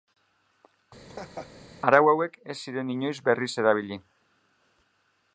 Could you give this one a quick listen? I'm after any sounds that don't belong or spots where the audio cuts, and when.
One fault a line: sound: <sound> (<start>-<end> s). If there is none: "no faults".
sound: laugh (1.0-1.5 s)